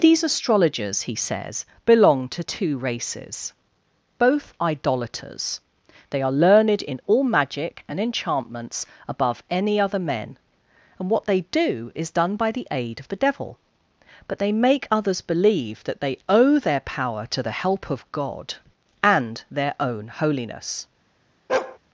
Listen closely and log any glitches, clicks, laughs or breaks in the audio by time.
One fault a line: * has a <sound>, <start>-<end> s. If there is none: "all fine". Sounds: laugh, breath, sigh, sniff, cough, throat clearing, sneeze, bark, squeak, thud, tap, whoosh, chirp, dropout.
* has a bark, 21.5-21.8 s